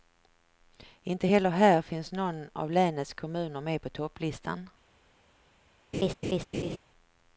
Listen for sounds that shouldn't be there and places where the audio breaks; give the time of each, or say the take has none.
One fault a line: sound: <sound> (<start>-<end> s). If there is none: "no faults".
sound: laugh (5.9-6.8 s)